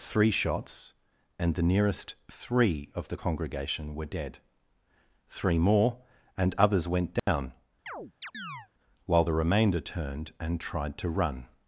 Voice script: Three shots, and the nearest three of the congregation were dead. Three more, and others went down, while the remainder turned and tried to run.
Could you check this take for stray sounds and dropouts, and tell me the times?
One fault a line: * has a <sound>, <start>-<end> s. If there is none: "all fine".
* has a dropout, 7.2-7.3 s
* has a chirp, 7.9-8.7 s